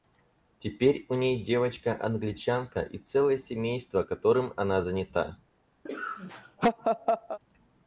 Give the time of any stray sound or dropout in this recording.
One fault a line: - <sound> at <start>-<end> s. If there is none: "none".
- laugh at 5.9-7.4 s